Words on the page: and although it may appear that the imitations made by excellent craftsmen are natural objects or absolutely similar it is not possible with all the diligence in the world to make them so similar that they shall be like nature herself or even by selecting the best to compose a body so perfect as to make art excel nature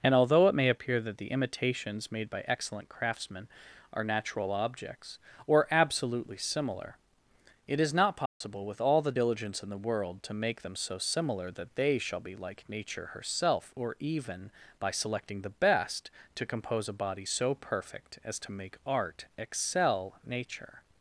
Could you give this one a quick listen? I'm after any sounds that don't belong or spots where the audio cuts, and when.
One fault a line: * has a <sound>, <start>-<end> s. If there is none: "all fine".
* has a dropout, 8.3-8.4 s